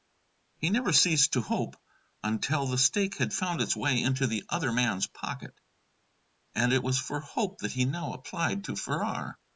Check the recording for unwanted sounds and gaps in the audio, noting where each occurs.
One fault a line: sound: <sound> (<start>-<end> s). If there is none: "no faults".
no faults